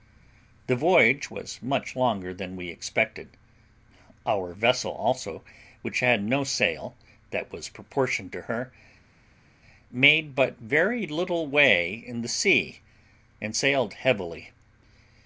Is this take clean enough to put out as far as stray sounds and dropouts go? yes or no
yes